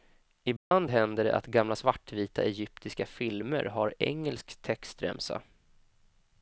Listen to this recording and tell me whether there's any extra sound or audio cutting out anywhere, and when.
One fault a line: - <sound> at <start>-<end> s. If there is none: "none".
- dropout at 0.6-0.7 s